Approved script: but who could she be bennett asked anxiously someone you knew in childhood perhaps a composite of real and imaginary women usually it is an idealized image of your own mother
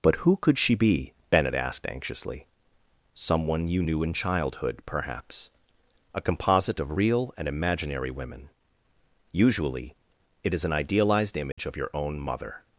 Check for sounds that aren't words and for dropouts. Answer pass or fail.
fail